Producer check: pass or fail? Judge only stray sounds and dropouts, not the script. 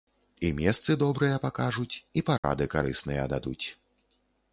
fail